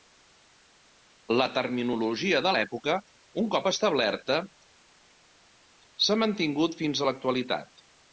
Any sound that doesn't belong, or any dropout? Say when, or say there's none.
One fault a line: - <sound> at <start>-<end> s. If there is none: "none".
none